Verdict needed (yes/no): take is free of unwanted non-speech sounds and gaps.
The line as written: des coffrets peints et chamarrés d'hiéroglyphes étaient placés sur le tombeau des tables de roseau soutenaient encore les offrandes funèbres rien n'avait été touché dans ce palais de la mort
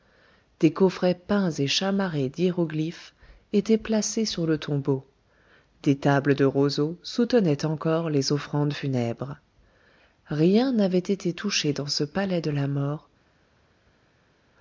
yes